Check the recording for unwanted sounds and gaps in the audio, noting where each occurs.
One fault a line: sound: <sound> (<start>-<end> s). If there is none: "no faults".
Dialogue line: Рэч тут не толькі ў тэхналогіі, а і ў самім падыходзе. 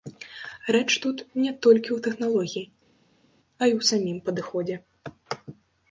no faults